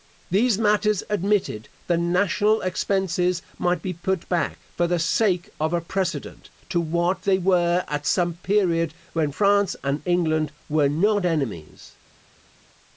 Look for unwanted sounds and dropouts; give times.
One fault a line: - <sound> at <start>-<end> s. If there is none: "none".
none